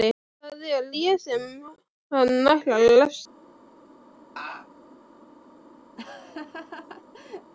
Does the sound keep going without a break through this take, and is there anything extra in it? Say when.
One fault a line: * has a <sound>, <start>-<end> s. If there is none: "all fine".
* has a laugh, 4.4-4.7 s
* has a laugh, 6.0-7.5 s